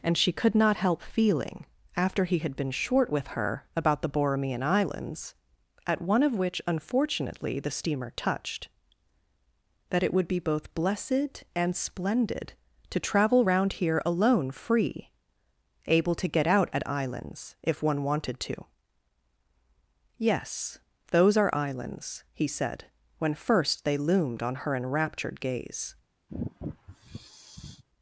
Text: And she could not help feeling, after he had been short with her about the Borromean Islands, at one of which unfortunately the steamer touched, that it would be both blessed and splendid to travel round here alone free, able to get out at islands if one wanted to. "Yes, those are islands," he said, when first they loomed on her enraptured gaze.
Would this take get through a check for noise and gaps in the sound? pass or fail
fail